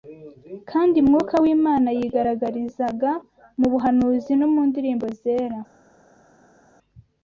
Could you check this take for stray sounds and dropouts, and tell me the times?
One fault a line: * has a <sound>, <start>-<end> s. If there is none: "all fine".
all fine